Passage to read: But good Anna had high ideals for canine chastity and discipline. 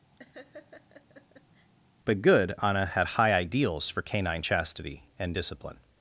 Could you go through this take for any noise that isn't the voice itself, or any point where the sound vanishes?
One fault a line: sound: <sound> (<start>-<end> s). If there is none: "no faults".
sound: laugh (0.2-1.7 s)